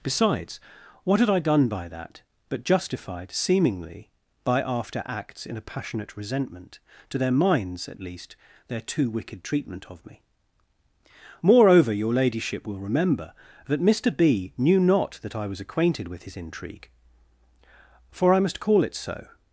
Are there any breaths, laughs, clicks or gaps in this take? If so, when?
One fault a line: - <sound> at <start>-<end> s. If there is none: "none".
none